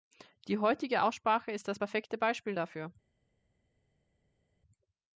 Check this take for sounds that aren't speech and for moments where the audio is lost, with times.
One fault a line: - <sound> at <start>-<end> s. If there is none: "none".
none